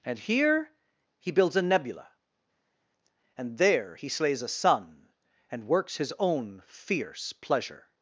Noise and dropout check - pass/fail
pass